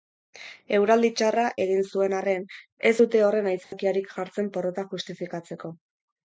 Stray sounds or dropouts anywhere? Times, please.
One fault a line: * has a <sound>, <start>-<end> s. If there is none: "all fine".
* has a dropout, 3.6-3.7 s